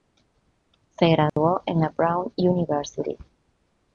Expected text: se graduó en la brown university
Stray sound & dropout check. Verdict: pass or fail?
fail